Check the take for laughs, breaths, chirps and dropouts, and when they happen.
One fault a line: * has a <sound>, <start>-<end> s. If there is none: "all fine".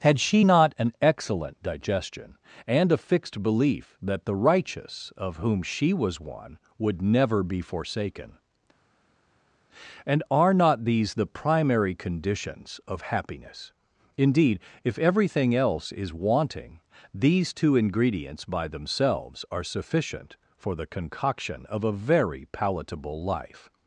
all fine